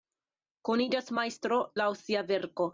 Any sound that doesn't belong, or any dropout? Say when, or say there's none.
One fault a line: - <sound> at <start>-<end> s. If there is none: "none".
none